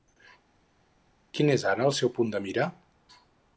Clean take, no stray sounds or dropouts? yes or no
yes